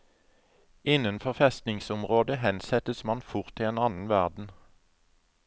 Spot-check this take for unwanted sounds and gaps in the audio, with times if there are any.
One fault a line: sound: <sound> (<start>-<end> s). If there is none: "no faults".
no faults